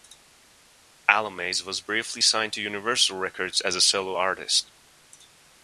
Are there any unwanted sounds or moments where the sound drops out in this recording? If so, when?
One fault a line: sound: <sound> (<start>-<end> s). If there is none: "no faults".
no faults